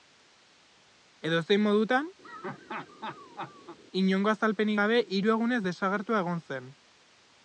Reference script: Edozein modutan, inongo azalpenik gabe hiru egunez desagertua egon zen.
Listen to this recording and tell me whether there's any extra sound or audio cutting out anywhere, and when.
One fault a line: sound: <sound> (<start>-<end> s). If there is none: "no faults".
sound: laugh (2.2-3.8 s)